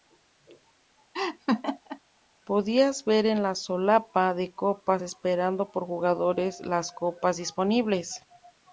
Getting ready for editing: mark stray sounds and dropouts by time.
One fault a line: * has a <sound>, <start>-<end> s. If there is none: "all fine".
* has a laugh, 1.1-2.0 s